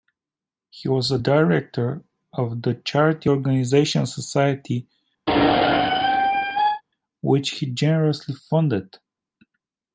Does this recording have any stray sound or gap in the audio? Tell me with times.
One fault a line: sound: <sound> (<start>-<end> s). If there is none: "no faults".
sound: squeak (5.3-6.8 s)